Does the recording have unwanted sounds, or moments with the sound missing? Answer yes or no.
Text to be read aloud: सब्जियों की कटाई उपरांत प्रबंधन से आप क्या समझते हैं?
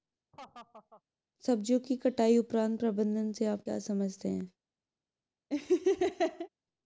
yes